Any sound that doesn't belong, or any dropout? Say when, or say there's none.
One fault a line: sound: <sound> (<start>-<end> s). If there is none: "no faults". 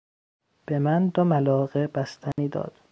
sound: dropout (2.3-2.4 s)